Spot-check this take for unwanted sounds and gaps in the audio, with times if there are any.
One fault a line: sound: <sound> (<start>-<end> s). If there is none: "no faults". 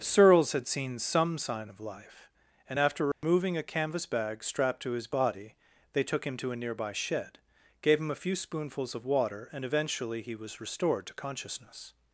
sound: dropout (3.1-3.2 s)